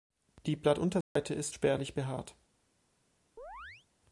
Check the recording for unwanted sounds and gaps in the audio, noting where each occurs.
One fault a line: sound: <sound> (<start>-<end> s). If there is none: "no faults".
sound: dropout (1.0-1.2 s)
sound: chirp (3.4-3.9 s)